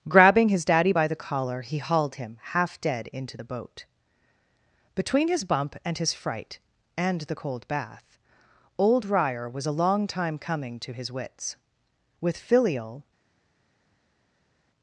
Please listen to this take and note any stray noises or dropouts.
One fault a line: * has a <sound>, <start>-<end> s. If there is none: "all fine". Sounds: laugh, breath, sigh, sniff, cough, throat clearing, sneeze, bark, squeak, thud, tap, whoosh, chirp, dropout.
all fine